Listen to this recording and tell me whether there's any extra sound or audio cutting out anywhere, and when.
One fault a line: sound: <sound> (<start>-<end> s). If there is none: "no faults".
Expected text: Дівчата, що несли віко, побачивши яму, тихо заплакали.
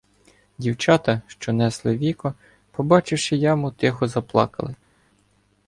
no faults